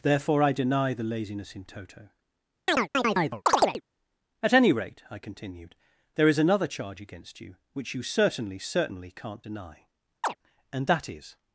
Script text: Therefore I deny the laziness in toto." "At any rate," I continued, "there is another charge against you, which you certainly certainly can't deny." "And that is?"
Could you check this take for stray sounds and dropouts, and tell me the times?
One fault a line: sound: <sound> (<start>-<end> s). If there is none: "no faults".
sound: chirp (2.7-3.8 s)
sound: chirp (10.2-10.4 s)